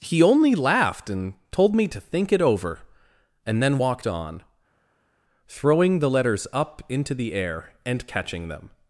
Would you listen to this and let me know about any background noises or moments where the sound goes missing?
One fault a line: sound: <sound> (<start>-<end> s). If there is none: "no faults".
no faults